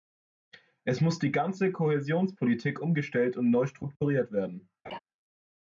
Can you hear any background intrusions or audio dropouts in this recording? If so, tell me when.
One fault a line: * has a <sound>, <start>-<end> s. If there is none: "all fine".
* has a laugh, 4.8-5.0 s